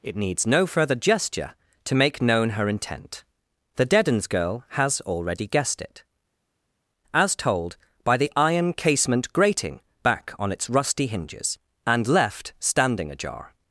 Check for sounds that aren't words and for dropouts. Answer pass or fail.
pass